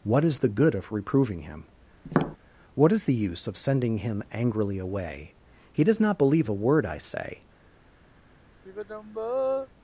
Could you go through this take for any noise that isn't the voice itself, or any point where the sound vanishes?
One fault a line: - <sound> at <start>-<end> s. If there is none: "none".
- tap at 2.0-2.4 s
- sigh at 8.7-9.7 s